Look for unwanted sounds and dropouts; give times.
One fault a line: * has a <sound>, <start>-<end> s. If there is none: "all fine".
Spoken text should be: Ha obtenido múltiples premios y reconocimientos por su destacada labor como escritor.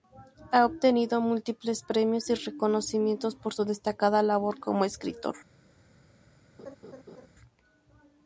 * has a laugh, 6.6-7.3 s